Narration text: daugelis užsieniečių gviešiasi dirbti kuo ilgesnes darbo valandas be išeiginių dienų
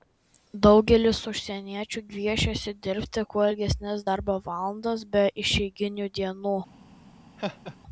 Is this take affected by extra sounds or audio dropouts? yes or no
yes